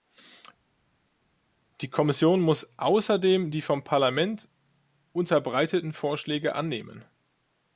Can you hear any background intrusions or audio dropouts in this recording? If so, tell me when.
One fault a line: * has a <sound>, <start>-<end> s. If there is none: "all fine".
all fine